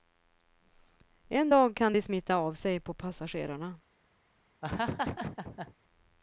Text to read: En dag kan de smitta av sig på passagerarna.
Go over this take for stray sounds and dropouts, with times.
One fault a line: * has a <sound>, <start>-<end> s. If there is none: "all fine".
* has a laugh, 4.6-5.7 s